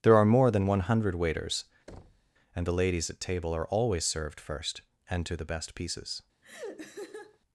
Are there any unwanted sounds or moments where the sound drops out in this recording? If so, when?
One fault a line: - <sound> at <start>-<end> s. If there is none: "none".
- thud at 1.9-2.3 s
- laugh at 6.4-7.4 s